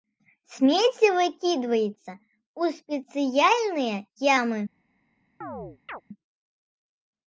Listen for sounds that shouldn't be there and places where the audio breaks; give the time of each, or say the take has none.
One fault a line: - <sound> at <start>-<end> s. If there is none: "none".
- chirp at 5.4-6.0 s